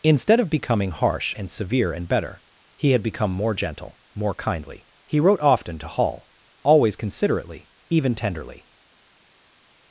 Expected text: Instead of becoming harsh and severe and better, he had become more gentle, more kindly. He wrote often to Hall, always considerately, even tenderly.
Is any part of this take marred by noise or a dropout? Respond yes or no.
no